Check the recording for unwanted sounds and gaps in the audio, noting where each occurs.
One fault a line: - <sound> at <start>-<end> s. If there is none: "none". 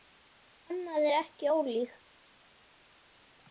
none